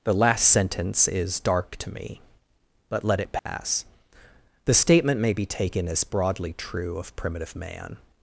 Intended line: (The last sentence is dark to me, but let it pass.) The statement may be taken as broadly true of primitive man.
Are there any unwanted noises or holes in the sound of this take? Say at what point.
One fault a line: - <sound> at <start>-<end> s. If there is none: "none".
- dropout at 3.4-3.5 s